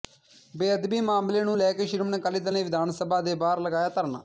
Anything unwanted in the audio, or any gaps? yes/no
no